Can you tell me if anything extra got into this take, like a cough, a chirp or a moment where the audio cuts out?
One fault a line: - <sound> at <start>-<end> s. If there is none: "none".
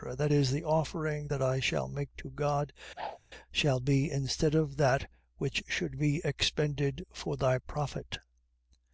- whoosh at 3.0-3.2 s